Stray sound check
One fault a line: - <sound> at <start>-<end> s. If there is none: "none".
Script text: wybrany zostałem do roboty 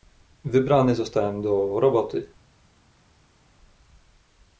none